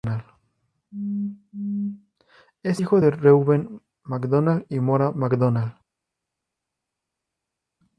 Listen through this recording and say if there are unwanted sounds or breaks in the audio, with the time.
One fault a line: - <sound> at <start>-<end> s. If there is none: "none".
none